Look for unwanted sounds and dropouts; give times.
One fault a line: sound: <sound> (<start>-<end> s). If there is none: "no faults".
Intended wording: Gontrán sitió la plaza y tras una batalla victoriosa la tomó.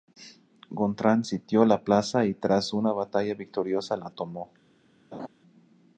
sound: laugh (5.1-5.3 s)